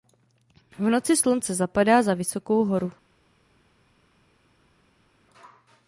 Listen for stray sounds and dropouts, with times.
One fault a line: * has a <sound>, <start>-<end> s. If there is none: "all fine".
all fine